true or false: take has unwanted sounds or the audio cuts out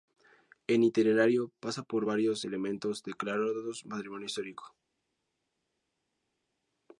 false